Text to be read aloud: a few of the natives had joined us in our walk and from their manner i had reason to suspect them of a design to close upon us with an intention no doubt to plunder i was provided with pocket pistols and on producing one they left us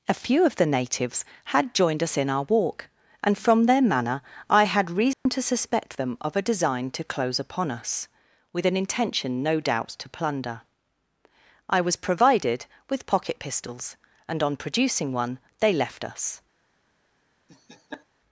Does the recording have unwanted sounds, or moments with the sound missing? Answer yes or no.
yes